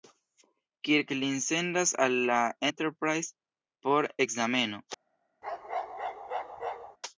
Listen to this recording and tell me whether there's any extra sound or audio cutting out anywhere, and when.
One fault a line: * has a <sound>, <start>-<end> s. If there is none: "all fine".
* has a bark, 5.4-7.0 s